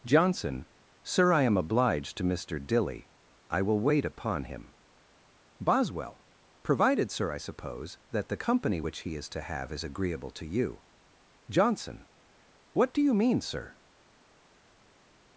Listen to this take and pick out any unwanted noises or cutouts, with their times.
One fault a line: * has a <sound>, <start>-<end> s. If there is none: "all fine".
all fine